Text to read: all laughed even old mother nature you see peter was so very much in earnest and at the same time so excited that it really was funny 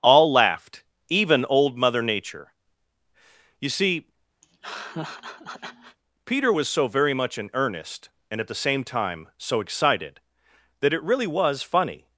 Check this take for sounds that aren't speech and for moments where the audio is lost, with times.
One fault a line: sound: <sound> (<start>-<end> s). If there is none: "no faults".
sound: laugh (4.4-6.0 s)